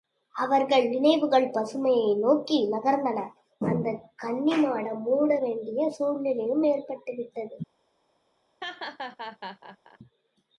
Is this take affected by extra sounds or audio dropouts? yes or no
yes